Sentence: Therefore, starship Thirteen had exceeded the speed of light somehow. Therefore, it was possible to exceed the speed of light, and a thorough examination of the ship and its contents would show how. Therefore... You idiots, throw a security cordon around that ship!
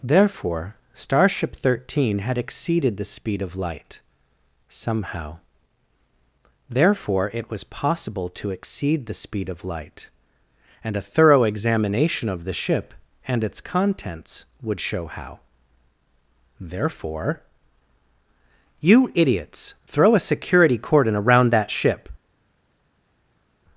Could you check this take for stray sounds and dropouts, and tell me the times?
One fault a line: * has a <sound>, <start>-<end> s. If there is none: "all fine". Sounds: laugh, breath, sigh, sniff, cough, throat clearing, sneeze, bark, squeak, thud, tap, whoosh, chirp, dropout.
all fine